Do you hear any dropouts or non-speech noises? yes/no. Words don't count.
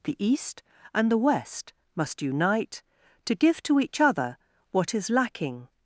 no